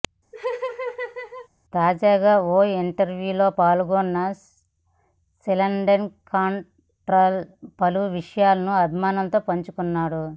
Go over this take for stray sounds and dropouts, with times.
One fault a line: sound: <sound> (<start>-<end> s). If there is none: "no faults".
sound: laugh (0.3-1.5 s)